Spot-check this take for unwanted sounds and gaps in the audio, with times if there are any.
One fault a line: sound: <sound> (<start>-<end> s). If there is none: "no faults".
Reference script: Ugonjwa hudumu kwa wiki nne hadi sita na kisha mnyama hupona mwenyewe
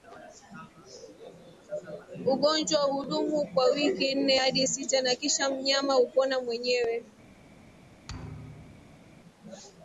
sound: thud (8.1-9.1 s)